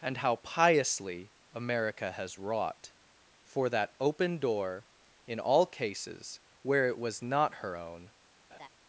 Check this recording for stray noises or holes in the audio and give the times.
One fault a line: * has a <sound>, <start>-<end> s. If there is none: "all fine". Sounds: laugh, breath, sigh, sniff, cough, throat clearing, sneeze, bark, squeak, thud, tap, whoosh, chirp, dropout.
* has a laugh, 8.5-8.7 s